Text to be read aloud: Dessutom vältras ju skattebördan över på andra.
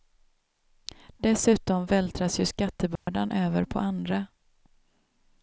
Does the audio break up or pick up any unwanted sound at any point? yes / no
yes